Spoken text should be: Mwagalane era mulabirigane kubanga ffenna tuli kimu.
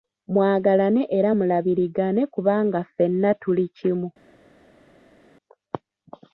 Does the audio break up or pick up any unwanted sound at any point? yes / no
no